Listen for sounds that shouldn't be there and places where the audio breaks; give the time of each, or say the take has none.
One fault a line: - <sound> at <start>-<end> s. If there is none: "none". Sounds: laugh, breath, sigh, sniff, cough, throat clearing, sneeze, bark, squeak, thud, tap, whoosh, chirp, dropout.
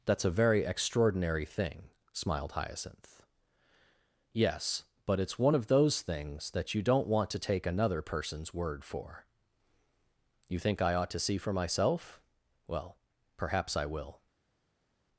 none